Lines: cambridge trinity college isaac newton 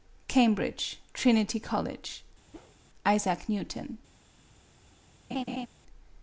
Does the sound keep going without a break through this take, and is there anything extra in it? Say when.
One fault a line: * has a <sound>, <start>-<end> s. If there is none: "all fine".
* has a whoosh, 2.5-2.8 s
* has a laugh, 5.3-5.7 s